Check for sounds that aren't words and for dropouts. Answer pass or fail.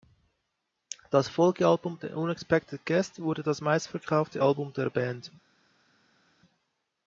pass